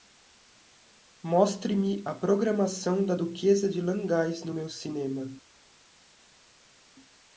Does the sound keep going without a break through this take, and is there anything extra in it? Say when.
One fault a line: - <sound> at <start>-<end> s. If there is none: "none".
none